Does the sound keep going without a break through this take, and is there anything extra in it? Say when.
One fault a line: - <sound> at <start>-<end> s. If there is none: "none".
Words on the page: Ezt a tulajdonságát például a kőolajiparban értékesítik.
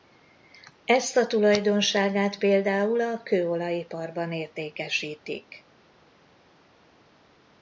none